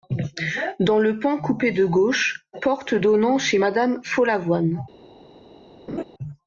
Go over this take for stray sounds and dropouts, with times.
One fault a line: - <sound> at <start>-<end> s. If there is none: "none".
- laugh at 5.9-6.0 s